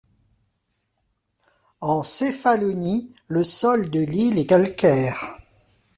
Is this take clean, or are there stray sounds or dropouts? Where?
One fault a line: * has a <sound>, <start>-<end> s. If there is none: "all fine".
all fine